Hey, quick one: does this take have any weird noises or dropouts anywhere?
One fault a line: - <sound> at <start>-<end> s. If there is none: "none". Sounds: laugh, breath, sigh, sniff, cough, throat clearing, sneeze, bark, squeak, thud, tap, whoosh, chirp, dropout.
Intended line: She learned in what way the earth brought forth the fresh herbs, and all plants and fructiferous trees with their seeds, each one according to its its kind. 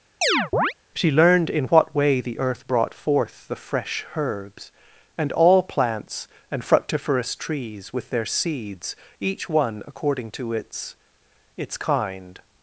- chirp at 0.2-0.7 s